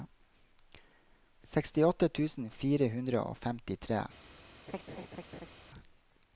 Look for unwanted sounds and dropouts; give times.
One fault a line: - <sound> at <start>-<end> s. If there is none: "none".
- laugh at 4.7-5.5 s